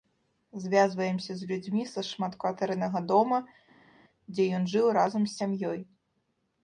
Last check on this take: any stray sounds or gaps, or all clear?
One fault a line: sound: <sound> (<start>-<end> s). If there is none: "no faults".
no faults